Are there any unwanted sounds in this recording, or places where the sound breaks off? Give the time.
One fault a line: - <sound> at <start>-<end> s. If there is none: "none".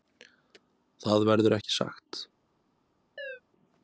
- chirp at 3.2-3.4 s